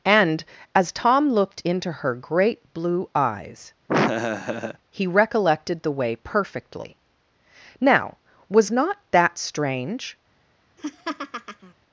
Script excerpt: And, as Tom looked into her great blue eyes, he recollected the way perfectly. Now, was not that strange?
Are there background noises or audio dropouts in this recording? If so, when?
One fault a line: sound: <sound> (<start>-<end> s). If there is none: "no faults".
sound: laugh (3.9-4.8 s)
sound: laugh (10.8-11.7 s)